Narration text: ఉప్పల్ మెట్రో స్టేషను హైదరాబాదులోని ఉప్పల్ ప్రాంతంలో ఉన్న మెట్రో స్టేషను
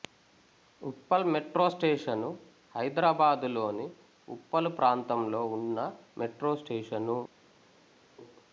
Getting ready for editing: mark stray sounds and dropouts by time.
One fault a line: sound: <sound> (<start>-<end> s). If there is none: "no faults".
no faults